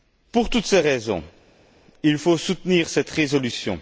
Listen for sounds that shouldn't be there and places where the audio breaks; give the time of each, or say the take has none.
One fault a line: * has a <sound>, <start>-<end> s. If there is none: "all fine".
all fine